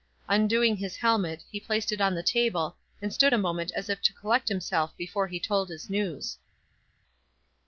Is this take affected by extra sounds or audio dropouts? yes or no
no